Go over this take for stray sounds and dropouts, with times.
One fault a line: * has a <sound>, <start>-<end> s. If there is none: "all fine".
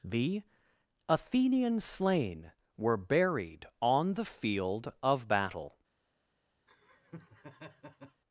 * has a laugh, 6.7-8.2 s